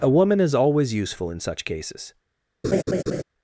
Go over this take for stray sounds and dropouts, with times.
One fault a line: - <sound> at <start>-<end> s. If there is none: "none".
- laugh at 2.6-3.2 s